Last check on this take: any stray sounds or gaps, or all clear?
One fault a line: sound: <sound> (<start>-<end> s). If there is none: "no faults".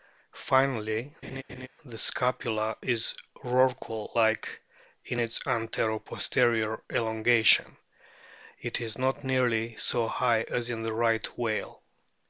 sound: laugh (1.2-1.7 s)